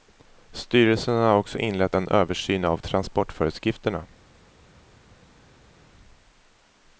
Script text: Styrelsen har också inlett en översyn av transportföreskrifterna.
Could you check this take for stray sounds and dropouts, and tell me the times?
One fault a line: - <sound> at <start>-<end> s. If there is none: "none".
none